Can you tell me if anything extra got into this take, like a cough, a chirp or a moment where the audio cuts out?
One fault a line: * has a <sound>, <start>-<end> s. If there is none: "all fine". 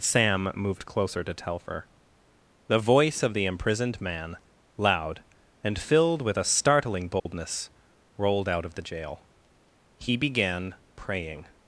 * has a dropout, 7.2-7.3 s